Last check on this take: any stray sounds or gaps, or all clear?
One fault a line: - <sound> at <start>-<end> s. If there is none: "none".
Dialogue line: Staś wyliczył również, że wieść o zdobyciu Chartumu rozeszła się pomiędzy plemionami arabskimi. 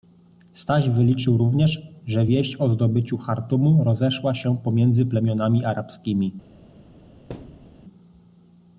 - thud at 7.3-7.8 s